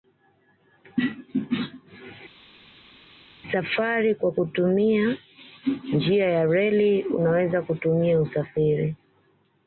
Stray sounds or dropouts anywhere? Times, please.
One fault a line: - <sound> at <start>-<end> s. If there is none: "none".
none